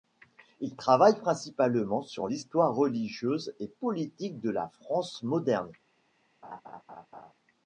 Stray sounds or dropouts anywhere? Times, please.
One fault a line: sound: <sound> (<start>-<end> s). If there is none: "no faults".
sound: laugh (6.4-7.3 s)